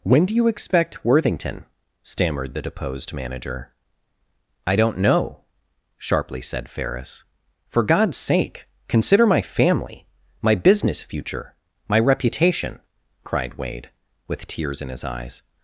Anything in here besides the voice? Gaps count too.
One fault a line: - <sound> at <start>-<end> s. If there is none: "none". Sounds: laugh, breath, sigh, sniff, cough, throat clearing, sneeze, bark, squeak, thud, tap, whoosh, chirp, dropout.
none